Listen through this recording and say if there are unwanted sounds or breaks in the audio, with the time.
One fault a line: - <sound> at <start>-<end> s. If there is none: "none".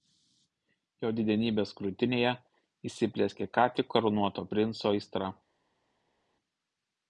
none